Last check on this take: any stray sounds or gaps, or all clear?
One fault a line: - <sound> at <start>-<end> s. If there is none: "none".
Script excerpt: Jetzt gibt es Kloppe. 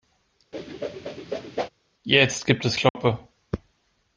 - whoosh at 0.5-1.7 s
- dropout at 2.9-3.0 s